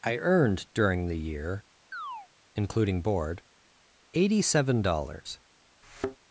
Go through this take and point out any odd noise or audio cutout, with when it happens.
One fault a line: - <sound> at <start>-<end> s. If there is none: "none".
- chirp at 1.9-2.3 s
- thud at 5.8-6.2 s